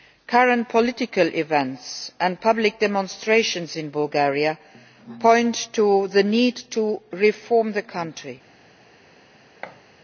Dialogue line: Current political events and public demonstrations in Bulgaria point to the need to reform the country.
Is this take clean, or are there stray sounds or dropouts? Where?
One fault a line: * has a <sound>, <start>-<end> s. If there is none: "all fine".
* has a thud, 9.6-9.8 s